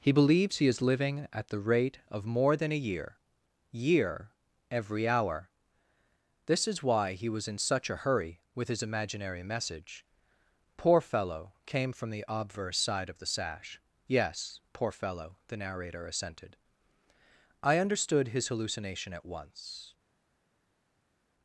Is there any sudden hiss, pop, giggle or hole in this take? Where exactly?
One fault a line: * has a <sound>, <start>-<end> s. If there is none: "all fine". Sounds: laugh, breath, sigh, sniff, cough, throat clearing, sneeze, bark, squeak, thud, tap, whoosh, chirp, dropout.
all fine